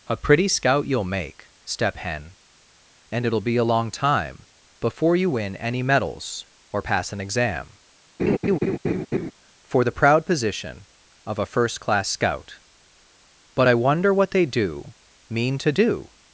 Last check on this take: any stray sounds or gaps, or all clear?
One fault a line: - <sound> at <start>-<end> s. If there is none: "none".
- laugh at 8.2-9.3 s